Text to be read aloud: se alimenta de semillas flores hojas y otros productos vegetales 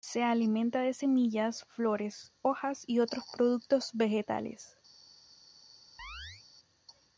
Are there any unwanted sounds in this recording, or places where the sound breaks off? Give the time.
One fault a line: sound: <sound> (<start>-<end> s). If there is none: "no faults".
sound: chirp (6.0-6.4 s)